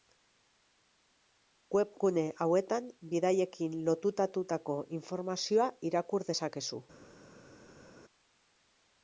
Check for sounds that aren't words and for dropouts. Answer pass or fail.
pass